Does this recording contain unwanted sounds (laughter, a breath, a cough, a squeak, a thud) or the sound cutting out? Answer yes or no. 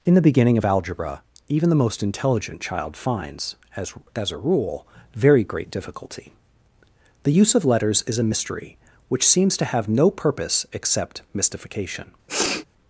yes